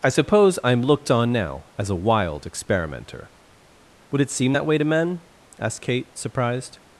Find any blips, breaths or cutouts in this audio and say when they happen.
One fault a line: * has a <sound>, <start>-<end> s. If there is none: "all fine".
all fine